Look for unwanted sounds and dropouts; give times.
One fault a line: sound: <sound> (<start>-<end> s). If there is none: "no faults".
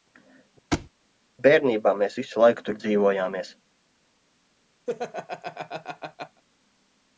sound: thud (0.7-0.9 s)
sound: laugh (4.9-6.4 s)